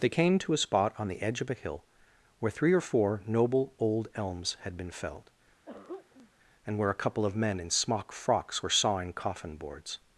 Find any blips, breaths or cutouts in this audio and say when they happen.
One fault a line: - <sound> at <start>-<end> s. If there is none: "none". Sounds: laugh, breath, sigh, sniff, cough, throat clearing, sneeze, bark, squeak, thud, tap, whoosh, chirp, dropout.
- throat clearing at 5.7-6.3 s